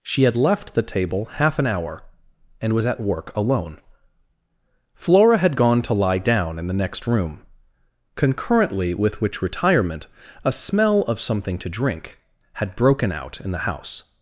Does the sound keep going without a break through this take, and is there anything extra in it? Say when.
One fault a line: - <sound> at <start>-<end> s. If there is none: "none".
none